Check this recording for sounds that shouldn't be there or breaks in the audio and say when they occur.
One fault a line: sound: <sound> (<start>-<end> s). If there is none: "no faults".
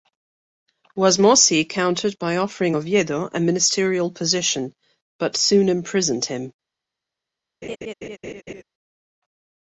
sound: laugh (7.6-8.6 s)